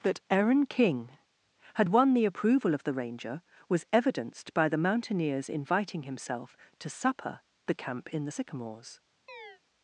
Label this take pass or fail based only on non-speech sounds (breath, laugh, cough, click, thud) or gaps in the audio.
fail